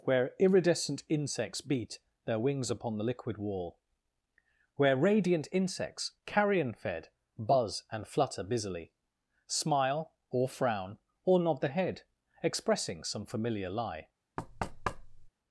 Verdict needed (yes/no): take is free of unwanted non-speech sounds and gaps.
no